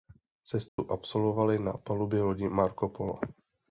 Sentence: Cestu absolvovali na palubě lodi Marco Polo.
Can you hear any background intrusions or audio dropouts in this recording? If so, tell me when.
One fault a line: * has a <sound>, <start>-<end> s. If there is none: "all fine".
* has a dropout, 0.7-0.8 s